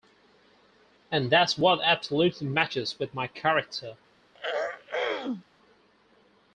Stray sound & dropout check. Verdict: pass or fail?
fail